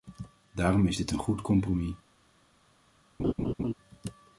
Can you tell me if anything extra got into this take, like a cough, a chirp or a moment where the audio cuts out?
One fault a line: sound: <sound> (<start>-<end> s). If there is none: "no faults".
sound: laugh (3.2-3.7 s)